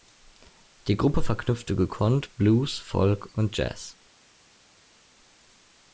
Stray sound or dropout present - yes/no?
no